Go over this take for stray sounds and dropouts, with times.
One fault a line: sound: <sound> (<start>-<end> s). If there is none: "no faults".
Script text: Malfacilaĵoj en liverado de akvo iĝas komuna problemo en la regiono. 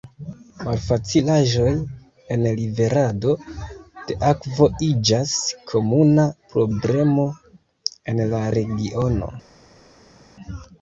no faults